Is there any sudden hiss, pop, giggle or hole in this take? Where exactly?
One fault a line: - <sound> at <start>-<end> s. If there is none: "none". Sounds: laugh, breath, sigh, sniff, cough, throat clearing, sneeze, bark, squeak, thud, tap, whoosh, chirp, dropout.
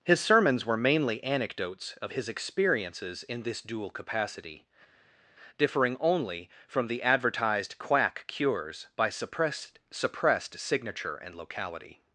none